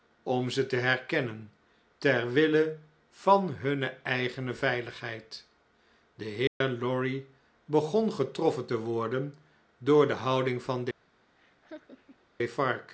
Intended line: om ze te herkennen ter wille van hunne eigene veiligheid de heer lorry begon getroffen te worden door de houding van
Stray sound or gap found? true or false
true